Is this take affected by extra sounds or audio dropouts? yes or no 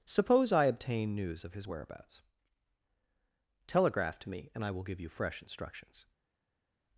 no